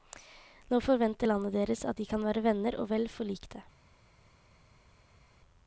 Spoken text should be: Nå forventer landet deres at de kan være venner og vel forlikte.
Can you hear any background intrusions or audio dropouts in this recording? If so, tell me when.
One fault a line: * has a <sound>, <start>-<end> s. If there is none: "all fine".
all fine